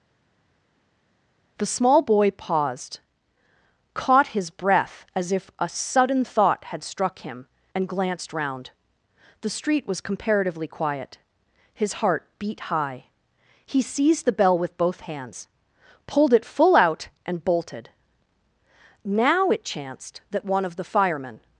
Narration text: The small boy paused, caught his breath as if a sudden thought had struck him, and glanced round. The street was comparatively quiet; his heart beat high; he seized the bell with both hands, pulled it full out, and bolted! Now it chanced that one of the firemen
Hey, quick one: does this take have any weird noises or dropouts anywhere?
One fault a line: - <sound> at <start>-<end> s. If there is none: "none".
none